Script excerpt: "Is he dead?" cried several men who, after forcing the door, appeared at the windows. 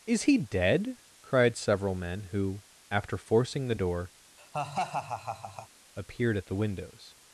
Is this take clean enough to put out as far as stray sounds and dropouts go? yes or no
no